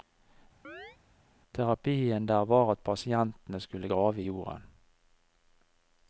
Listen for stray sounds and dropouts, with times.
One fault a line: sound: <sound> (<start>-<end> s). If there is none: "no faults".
sound: chirp (0.6-1.0 s)